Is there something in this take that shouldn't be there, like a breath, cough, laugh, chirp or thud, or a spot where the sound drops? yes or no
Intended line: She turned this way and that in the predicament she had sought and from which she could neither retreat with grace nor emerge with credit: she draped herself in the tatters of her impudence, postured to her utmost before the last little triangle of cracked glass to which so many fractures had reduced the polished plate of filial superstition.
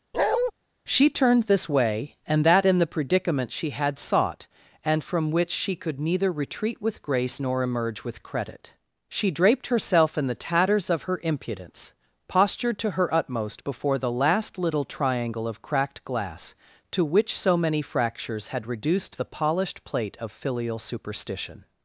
yes